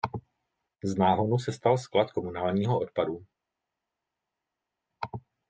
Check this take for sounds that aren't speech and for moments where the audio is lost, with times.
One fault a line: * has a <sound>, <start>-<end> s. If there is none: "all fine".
all fine